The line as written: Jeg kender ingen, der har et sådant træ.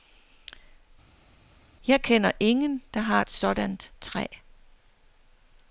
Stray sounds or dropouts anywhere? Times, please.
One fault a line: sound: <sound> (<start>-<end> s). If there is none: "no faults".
no faults